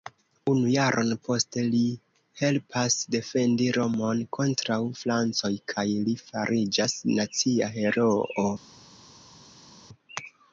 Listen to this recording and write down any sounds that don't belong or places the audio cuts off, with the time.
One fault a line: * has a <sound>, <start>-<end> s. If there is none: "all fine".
all fine